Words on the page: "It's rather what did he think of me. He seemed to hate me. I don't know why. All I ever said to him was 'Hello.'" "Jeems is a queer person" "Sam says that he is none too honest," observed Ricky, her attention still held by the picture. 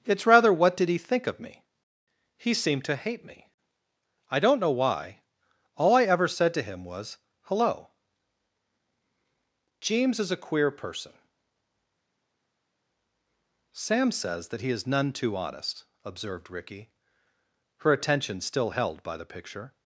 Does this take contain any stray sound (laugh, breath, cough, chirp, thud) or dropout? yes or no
no